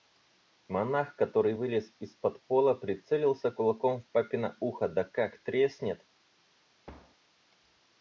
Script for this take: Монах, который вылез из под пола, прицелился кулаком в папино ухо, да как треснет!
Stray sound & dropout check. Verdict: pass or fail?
fail